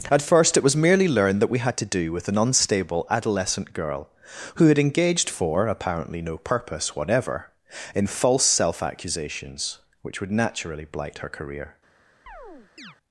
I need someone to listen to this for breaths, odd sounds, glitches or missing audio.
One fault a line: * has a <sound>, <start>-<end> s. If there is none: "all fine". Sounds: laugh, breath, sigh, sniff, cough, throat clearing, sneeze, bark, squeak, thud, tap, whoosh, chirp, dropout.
* has a chirp, 12.3-13.0 s